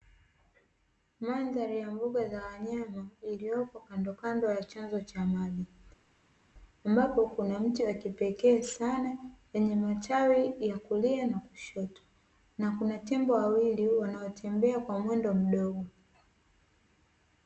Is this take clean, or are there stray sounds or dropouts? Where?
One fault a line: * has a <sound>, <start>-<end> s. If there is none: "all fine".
all fine